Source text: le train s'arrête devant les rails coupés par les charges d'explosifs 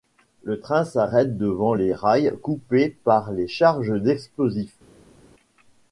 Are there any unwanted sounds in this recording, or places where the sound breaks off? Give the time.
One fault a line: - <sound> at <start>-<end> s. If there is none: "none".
none